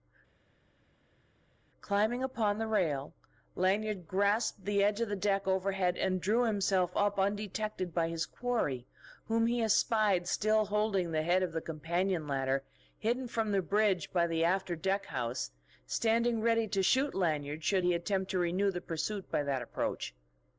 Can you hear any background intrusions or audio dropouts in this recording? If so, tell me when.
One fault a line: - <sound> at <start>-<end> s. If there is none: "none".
none